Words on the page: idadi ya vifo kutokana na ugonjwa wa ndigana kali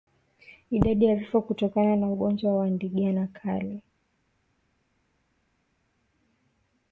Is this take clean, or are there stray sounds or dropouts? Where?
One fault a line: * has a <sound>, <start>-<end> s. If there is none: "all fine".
all fine